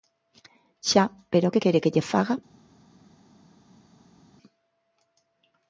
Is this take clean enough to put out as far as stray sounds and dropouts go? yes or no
yes